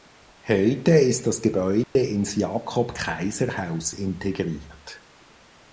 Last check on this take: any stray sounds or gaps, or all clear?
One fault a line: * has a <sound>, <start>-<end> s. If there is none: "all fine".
* has a dropout, 1.8-2.0 s